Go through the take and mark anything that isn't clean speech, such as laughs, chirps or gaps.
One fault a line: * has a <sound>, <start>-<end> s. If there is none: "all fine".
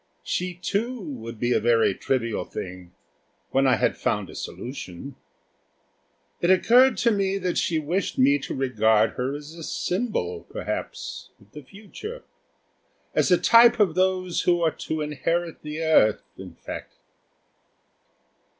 all fine